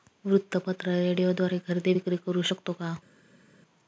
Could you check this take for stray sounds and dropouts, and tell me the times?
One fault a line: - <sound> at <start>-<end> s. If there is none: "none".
none